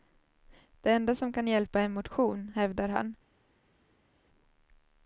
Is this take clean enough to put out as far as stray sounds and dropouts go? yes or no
yes